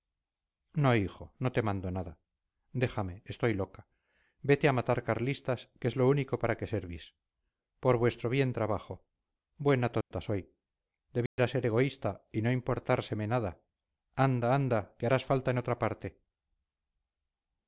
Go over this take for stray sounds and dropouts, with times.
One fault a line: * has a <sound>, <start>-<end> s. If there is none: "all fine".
* has a dropout, 10.0-10.1 s
* has a dropout, 11.3-11.4 s